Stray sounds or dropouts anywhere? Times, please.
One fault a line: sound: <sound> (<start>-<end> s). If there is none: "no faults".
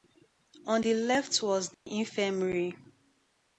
sound: dropout (1.7-1.9 s)